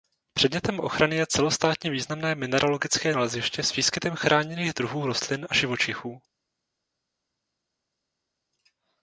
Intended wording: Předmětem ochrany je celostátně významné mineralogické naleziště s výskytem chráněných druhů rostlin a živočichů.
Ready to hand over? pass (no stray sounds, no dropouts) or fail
pass